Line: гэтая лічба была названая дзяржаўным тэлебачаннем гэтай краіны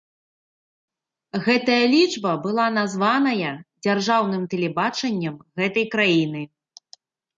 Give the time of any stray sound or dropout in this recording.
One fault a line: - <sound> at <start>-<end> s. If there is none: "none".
none